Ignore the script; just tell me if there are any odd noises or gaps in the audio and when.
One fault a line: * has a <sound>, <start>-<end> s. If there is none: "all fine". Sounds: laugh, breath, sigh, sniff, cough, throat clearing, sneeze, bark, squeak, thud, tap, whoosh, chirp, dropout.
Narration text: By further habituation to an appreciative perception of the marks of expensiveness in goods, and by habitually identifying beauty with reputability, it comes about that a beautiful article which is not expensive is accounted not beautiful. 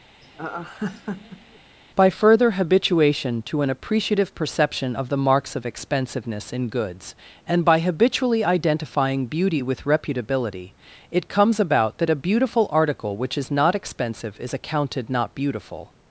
* has a laugh, 0.2-1.6 s